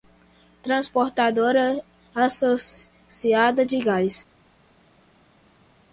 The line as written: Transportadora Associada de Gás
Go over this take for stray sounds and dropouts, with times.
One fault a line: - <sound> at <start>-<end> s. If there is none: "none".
none